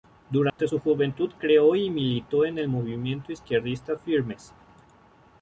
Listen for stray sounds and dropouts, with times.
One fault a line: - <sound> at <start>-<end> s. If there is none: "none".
- dropout at 0.5-0.6 s